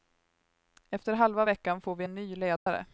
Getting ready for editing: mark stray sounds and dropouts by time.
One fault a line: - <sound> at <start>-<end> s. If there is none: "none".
- dropout at 2.6-2.7 s